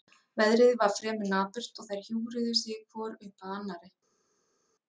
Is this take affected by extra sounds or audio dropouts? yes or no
no